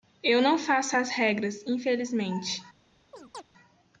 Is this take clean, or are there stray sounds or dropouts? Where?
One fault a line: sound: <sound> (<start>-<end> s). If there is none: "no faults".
sound: chirp (3.1-3.4 s)